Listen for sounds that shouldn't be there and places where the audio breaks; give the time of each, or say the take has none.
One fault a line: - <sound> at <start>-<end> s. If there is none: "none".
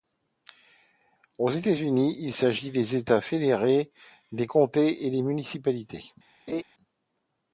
- laugh at 6.5-6.6 s